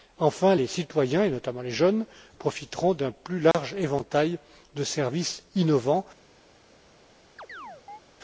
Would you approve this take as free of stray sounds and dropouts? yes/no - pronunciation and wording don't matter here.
no